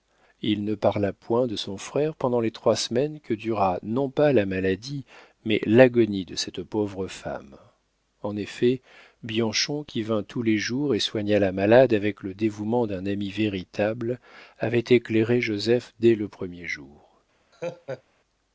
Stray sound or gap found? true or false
true